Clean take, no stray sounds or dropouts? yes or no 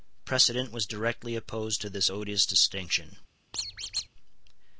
no